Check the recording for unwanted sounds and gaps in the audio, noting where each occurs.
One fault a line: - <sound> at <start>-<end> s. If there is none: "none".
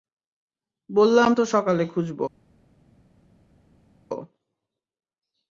none